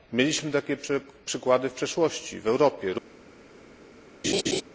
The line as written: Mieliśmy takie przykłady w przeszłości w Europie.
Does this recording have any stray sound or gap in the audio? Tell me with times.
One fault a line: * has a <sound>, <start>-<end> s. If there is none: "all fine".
* has a laugh, 4.2-4.6 s